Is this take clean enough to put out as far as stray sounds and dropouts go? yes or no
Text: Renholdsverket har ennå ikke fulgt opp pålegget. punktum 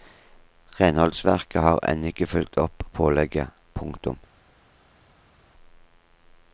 yes